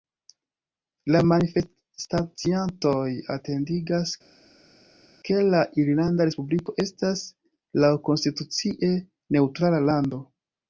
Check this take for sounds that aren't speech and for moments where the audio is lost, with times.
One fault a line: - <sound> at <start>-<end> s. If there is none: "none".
none